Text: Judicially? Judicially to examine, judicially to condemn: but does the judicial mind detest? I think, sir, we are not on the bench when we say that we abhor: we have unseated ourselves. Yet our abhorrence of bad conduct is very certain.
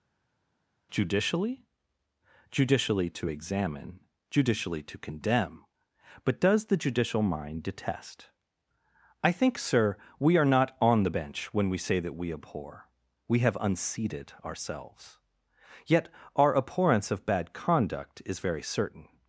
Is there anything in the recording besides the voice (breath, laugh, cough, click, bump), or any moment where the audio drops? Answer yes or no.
no